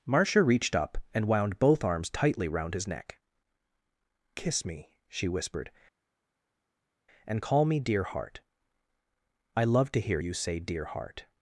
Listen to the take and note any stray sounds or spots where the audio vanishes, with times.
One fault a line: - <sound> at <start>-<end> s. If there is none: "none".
none